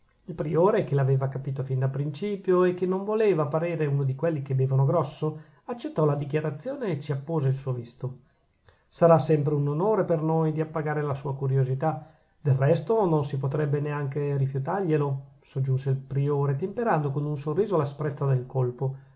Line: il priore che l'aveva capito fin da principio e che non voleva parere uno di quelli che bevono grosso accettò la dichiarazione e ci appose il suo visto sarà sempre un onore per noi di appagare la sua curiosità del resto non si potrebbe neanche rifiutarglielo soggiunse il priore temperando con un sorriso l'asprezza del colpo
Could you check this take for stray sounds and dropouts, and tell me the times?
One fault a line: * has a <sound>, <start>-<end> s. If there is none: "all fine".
all fine